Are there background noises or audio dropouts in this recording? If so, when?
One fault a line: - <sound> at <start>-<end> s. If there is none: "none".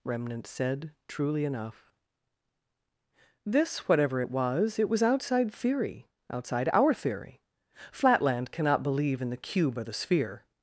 none